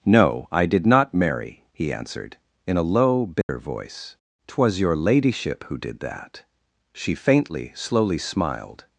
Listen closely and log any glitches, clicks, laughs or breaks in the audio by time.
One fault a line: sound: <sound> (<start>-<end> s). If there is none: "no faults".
sound: dropout (3.4-3.5 s)